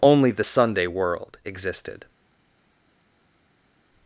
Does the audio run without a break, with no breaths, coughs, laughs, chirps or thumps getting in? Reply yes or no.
yes